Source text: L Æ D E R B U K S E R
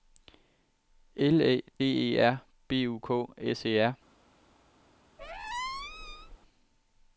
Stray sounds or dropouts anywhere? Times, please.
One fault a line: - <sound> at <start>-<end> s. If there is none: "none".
- squeak at 5.2-6.4 s